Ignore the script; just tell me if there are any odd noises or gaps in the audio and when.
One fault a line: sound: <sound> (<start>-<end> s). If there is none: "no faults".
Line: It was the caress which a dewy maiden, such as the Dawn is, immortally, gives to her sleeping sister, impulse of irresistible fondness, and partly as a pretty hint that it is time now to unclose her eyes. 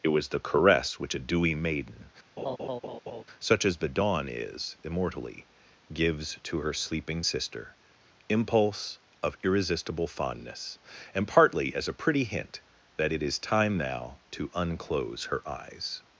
sound: laugh (2.4-3.2 s)